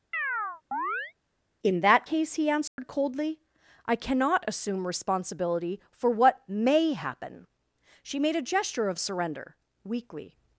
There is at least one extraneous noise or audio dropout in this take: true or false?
true